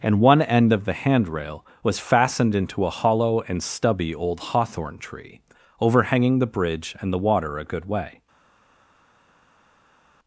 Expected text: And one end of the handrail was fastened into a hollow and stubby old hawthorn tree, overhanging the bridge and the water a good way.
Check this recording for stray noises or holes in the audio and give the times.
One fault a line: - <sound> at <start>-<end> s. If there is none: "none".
none